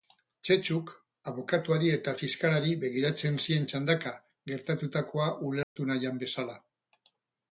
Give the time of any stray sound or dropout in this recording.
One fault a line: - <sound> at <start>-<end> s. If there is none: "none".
- dropout at 5.6-5.8 s